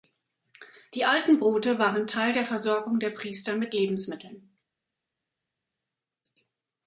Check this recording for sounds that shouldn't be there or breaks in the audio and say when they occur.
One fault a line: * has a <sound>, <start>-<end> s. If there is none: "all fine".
all fine